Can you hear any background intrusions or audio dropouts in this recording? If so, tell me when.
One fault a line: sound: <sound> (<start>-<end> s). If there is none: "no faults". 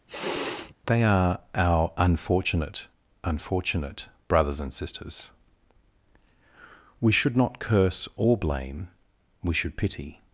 sound: sniff (0.1-0.7 s)